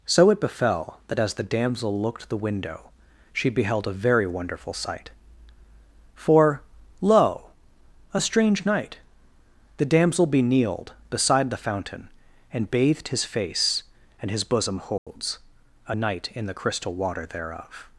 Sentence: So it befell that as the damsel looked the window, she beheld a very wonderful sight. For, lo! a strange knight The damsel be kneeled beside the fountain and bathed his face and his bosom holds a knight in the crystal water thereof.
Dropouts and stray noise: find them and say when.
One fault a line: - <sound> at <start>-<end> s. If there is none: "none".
- dropout at 15.0-15.1 s